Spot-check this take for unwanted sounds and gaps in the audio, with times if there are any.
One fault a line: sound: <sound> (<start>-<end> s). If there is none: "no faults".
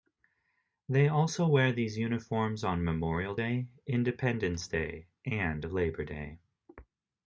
no faults